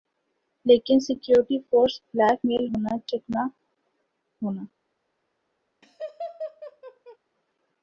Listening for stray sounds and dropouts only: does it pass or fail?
fail